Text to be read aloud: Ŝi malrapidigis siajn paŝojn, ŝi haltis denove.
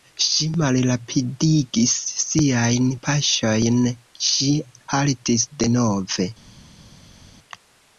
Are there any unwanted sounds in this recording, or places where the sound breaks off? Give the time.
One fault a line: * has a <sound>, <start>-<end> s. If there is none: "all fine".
all fine